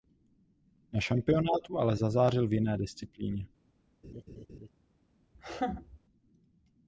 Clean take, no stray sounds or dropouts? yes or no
no